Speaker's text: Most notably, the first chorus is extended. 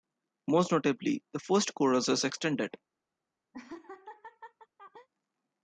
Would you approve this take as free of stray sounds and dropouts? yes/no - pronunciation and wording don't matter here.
no